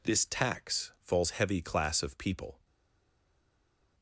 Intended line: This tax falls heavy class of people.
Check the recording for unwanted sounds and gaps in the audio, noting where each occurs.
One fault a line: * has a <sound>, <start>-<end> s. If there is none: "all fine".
all fine